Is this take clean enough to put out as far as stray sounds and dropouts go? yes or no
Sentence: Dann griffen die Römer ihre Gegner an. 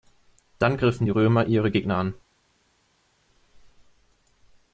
yes